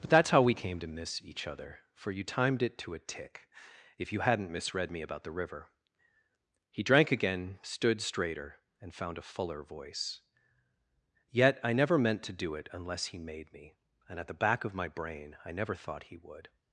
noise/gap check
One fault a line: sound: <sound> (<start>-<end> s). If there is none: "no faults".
no faults